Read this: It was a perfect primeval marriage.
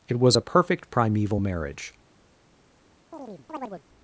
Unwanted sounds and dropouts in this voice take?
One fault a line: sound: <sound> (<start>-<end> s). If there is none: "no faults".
sound: chirp (3.1-3.8 s)